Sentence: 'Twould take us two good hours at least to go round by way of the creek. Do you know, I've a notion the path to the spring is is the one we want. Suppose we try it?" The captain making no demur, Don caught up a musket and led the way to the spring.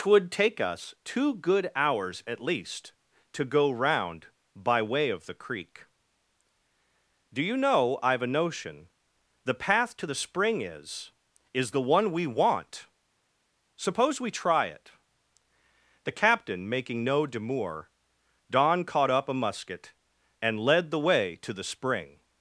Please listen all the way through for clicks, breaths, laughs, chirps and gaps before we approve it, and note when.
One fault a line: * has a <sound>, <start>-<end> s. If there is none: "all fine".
all fine